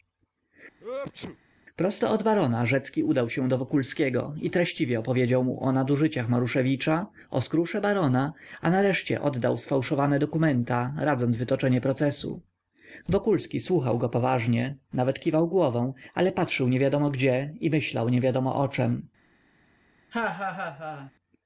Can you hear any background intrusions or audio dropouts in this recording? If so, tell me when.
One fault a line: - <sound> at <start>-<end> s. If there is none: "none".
- sneeze at 0.8-1.4 s
- laugh at 20.1-21.1 s